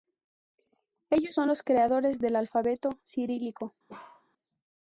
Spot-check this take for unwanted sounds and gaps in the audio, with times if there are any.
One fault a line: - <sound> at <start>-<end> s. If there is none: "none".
- bark at 3.9-4.3 s